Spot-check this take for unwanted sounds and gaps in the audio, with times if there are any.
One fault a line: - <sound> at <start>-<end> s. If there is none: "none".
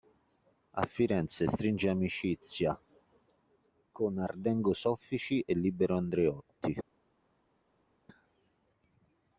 none